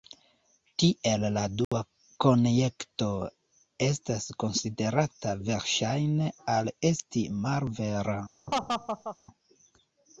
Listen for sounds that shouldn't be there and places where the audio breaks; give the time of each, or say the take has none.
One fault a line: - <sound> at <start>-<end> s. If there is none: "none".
- dropout at 1.6-1.7 s
- laugh at 8.5-9.2 s